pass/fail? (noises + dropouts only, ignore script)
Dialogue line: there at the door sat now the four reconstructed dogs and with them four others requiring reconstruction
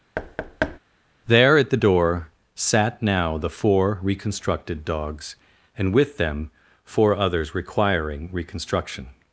fail